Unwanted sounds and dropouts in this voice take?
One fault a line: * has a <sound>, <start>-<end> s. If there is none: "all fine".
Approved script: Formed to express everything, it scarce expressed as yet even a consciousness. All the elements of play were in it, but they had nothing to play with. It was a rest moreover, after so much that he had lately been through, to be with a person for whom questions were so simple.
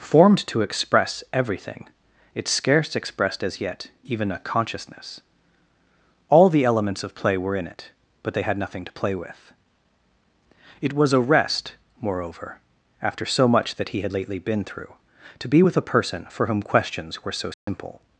* has a dropout, 17.5-17.7 s